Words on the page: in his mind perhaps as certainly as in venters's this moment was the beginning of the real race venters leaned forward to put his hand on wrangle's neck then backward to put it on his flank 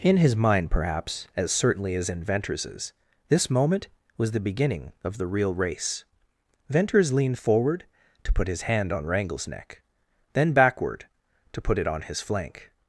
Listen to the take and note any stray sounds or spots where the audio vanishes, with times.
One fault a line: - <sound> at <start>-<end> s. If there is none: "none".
none